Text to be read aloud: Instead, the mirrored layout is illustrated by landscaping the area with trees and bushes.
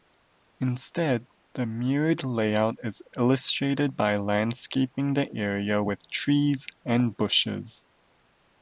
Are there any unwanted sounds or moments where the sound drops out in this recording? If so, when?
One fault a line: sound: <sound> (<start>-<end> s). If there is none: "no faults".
no faults